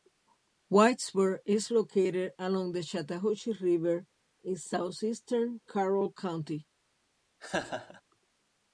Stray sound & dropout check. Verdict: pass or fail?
fail